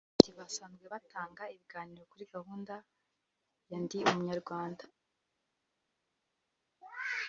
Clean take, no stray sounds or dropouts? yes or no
yes